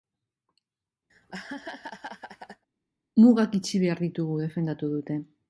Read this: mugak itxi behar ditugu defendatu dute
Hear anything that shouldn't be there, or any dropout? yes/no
yes